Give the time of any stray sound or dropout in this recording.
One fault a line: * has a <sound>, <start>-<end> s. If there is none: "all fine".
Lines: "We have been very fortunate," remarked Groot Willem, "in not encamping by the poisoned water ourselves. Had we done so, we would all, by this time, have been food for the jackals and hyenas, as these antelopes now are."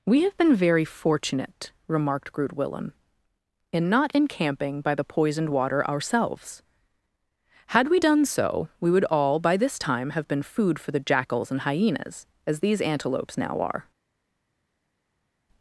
all fine